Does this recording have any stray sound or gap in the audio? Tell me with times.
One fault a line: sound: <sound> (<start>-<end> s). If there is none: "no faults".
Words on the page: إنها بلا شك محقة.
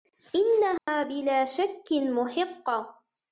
sound: dropout (0.8-0.9 s)